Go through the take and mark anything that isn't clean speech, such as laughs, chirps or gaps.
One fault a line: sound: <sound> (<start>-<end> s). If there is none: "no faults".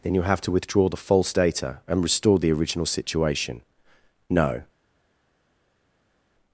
no faults